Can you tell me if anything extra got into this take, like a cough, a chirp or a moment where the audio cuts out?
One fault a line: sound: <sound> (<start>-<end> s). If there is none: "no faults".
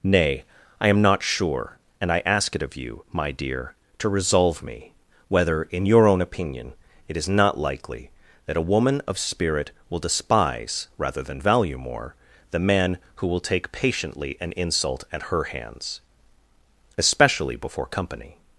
no faults